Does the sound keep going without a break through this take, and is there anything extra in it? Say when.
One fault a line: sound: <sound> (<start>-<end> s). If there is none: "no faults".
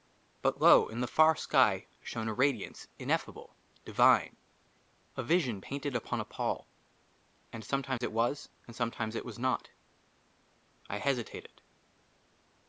sound: dropout (8.0-8.0 s)